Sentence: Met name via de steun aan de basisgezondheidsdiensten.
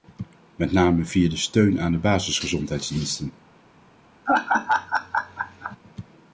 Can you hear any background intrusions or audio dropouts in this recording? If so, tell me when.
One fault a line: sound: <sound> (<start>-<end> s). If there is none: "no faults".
sound: laugh (4.3-5.8 s)